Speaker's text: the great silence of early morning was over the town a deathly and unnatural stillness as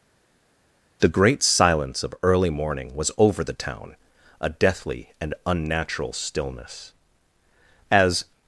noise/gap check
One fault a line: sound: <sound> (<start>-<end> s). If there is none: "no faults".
no faults